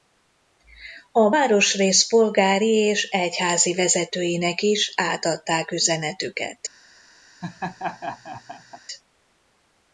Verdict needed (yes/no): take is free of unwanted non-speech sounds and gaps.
no